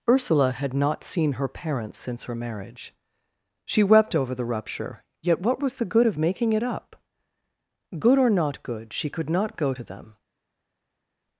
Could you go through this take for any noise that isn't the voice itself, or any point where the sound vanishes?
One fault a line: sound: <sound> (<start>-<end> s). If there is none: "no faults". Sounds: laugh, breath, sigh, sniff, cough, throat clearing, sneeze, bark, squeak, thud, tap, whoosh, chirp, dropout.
no faults